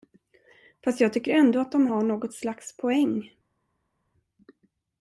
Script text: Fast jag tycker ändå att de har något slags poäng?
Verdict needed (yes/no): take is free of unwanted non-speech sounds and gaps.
yes